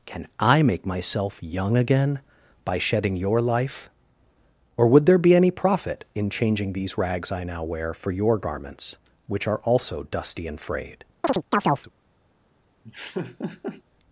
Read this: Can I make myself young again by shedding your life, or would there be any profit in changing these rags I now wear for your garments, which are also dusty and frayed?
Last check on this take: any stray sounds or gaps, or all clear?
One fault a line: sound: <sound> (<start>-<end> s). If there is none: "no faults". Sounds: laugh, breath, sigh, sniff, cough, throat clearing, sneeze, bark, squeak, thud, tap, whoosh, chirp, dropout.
sound: chirp (11.2-11.9 s)
sound: laugh (12.8-13.8 s)